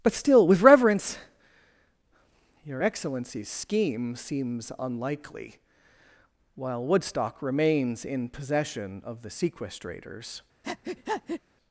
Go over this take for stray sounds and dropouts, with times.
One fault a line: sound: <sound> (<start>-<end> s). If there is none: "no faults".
sound: breath (10.6-11.4 s)